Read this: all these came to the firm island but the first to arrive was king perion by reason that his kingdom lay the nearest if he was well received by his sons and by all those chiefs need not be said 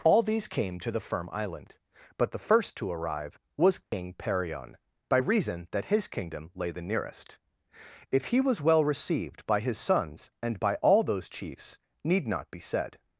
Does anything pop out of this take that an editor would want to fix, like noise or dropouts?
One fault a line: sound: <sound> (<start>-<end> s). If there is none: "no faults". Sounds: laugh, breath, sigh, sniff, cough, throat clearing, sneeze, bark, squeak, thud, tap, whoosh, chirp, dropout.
sound: dropout (3.8-3.9 s)